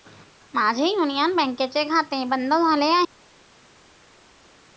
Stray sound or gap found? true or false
false